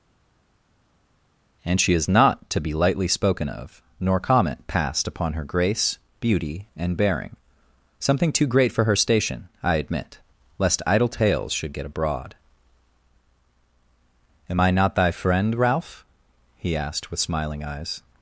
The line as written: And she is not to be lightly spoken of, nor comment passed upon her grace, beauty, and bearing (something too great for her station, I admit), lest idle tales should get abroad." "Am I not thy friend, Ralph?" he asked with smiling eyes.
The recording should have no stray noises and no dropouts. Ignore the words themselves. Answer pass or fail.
pass